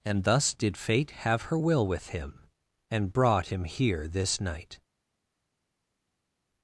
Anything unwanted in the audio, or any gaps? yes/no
no